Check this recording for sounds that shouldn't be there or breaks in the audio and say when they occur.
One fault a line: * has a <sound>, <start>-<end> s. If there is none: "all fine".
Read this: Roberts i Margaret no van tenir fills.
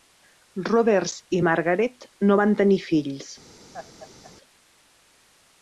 * has a laugh, 3.7-4.3 s